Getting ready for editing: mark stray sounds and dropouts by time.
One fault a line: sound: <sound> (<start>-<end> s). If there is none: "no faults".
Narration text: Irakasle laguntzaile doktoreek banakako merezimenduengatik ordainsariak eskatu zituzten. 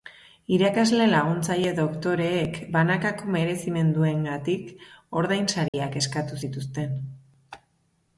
sound: dropout (5.7-5.7 s)